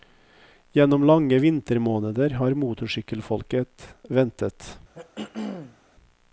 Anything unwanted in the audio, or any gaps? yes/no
yes